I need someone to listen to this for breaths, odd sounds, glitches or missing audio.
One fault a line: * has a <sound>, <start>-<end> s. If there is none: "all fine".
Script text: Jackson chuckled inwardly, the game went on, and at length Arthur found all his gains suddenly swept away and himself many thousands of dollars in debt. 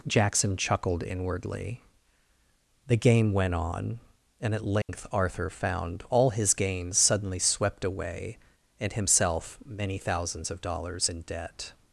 * has a dropout, 4.8-4.9 s